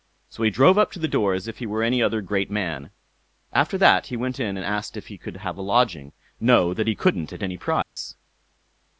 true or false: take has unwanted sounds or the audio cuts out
true